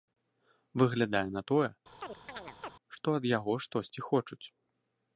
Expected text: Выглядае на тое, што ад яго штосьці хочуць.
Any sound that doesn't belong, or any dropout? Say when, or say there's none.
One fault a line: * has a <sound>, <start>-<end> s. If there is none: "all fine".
* has a chirp, 2.0-2.7 s